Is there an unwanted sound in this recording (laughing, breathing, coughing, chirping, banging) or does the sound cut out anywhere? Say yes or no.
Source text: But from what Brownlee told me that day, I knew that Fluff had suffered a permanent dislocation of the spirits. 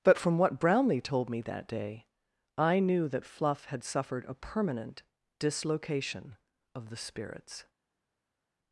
no